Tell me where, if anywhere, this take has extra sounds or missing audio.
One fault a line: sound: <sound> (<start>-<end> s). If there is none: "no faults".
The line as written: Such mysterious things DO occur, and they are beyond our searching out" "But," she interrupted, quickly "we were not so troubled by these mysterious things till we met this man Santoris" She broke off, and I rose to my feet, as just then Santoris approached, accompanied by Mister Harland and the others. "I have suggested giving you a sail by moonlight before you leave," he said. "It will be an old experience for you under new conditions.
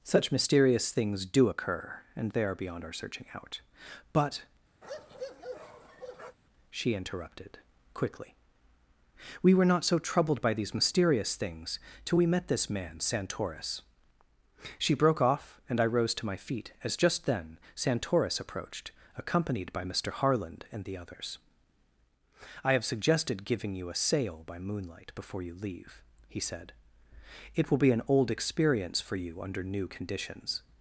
sound: bark (4.8-6.4 s)